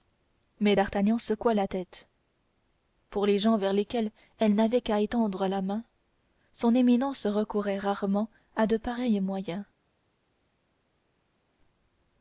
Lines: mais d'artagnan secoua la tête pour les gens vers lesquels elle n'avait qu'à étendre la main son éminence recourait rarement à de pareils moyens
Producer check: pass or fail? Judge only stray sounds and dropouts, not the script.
pass